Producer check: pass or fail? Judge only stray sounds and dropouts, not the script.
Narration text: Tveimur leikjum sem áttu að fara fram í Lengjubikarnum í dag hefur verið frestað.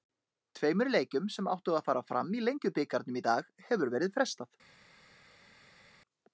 pass